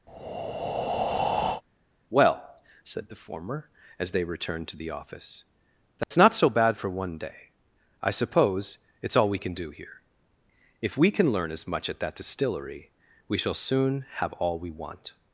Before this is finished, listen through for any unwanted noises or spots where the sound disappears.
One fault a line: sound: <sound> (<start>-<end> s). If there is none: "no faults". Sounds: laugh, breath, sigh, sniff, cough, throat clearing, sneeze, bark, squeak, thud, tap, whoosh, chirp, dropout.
sound: breath (0.1-1.6 s)
sound: dropout (6.0-6.1 s)